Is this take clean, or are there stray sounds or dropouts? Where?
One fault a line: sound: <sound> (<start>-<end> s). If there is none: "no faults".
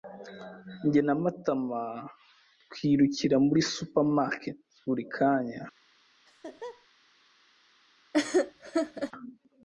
sound: laugh (6.3-6.9 s)
sound: laugh (8.1-9.1 s)